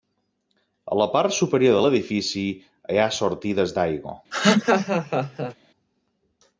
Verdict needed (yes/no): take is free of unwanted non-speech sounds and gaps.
no